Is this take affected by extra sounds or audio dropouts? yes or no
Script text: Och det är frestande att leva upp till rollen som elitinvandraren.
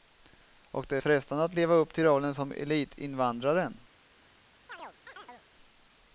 yes